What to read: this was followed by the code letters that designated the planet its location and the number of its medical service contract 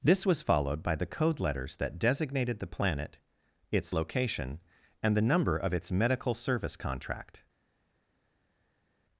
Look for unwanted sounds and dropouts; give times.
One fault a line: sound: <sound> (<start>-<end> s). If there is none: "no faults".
no faults